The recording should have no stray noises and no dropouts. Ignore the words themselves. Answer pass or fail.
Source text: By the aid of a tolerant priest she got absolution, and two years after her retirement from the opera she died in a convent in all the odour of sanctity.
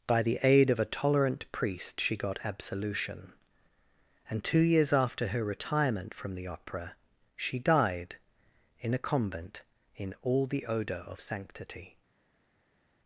pass